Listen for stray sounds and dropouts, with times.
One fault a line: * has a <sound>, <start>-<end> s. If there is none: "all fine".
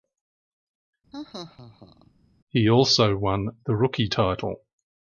* has a laugh, 1.1-2.1 s